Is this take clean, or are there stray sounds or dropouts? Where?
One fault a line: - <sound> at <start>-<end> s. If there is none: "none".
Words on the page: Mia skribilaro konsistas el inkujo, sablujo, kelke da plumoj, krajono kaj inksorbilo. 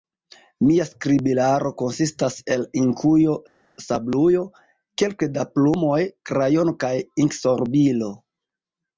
none